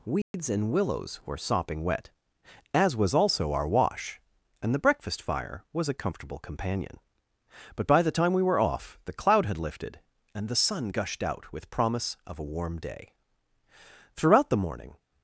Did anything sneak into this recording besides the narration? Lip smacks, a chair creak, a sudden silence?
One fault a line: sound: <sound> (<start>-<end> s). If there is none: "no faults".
sound: dropout (0.2-0.3 s)